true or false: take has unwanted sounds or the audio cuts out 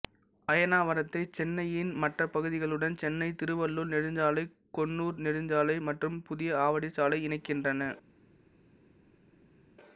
false